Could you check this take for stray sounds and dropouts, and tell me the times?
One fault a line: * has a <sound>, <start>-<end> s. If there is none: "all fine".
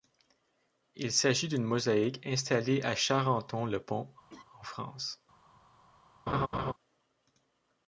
* has a laugh, 4.3-4.4 s
* has a laugh, 6.3-6.7 s